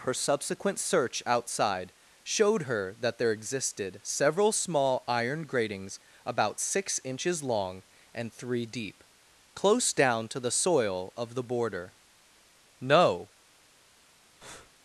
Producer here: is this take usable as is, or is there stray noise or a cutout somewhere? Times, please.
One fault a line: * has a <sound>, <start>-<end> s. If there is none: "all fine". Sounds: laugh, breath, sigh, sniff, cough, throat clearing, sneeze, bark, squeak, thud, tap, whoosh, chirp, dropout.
* has a breath, 14.4-14.7 s